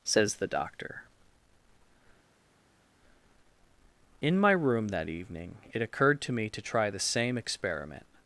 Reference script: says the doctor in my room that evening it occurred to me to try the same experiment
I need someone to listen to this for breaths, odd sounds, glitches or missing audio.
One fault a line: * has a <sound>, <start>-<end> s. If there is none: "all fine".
all fine